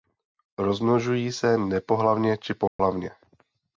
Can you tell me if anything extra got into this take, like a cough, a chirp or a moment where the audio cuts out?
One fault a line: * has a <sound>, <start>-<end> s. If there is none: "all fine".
* has a dropout, 2.7-2.8 s